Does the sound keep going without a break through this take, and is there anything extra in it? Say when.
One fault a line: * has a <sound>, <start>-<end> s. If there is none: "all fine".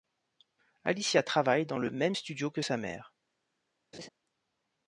* has a laugh, 3.9-4.1 s